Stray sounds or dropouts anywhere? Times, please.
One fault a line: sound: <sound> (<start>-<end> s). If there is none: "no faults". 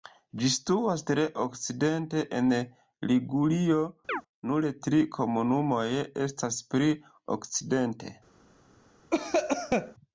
sound: chirp (4.1-4.2 s)
sound: cough (9.1-9.9 s)